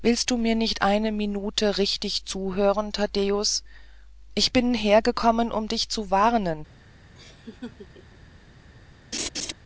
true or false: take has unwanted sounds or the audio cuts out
true